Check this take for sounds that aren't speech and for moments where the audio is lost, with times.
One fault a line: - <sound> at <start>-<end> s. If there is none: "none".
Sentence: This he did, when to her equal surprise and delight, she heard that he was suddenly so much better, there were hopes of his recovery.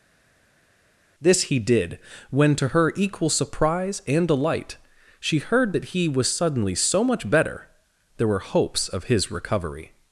none